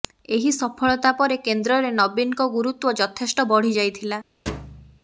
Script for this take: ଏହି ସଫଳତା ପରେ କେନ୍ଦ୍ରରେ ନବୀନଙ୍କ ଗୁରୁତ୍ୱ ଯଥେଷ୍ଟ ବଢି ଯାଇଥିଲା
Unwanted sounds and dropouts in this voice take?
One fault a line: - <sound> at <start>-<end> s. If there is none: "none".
- thud at 4.5-5.0 s